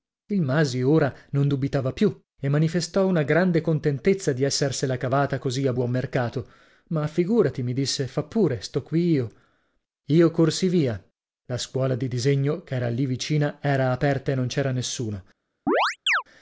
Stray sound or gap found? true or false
true